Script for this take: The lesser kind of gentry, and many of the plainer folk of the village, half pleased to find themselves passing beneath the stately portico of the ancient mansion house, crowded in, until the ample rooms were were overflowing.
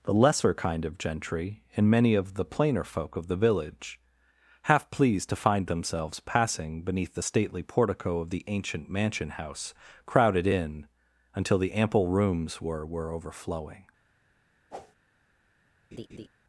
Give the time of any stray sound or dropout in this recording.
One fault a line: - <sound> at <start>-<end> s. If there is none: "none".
- whoosh at 14.7-15.0 s
- laugh at 15.9-16.3 s